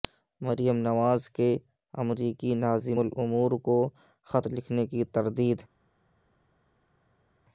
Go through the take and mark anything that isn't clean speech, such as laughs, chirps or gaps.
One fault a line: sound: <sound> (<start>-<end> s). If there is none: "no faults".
no faults